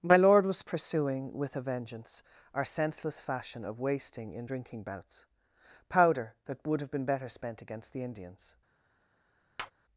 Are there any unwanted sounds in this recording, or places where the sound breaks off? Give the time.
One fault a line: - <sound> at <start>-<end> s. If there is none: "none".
- tap at 9.6-9.7 s